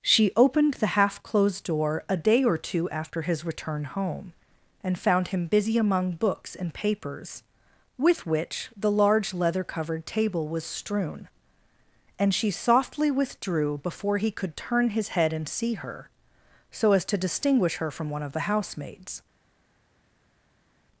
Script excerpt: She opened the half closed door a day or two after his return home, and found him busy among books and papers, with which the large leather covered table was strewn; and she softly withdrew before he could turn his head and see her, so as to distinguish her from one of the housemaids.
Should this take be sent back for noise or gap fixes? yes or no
no